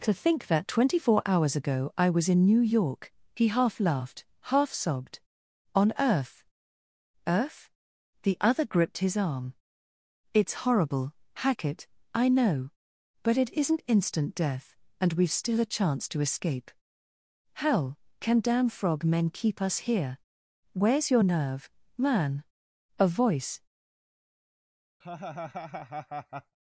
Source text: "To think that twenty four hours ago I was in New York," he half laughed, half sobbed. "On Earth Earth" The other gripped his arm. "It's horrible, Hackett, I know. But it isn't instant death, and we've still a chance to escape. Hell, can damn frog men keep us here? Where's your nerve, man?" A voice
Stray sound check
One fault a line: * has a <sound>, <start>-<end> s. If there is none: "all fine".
* has a laugh, 25.0-26.6 s